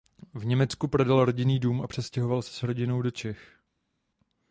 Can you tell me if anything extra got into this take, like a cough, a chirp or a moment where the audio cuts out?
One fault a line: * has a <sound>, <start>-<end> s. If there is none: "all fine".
all fine